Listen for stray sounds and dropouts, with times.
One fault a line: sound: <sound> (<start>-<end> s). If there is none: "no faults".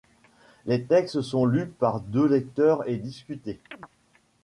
sound: chirp (3.7-3.9 s)